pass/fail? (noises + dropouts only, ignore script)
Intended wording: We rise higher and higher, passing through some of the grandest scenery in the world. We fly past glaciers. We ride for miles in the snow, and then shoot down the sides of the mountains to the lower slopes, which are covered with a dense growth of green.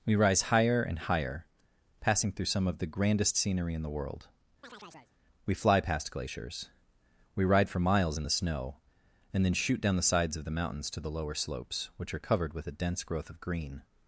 fail